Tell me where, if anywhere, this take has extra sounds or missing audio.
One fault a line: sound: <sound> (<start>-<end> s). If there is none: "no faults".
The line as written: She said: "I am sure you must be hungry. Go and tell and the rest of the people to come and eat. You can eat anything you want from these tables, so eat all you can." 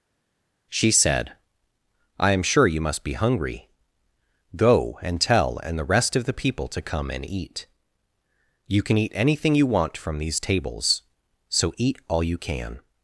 no faults